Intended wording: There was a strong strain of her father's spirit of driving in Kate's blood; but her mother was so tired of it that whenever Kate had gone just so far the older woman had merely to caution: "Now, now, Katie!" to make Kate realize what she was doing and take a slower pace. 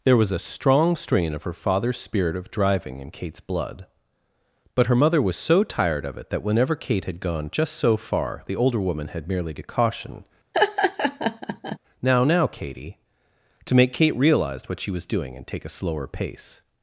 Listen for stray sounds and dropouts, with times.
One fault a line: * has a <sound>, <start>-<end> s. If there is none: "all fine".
* has a laugh, 10.5-11.8 s